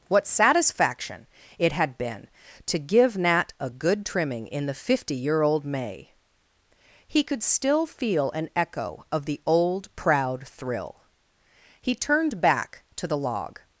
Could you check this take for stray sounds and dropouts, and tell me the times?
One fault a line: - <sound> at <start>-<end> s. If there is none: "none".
none